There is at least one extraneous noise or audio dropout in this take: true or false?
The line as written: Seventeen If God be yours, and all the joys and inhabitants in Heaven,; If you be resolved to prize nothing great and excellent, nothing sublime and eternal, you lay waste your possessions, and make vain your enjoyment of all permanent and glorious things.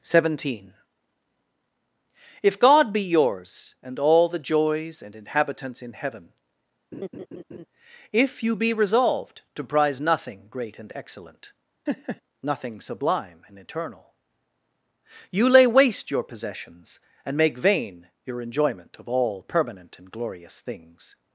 true